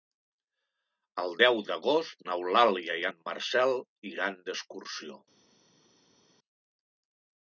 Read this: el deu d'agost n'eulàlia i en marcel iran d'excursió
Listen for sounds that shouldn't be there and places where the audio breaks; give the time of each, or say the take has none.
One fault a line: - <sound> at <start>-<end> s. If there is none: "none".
none